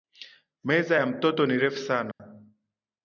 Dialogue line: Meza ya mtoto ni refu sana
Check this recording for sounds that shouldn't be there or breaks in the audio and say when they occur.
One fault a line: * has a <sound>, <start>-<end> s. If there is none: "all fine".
* has a dropout, 2.1-2.2 s